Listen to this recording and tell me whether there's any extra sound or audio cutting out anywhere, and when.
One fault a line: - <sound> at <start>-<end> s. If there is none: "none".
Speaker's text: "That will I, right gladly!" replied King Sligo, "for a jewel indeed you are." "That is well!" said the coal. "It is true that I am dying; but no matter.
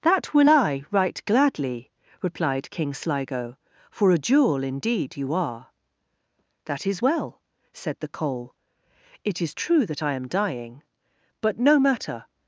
none